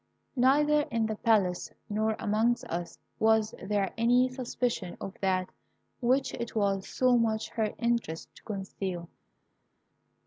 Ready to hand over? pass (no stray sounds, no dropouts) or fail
pass